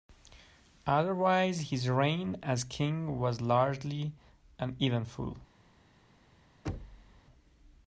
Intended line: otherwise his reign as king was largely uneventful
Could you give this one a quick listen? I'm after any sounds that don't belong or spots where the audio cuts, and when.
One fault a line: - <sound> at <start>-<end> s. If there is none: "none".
- thud at 6.7-7.2 s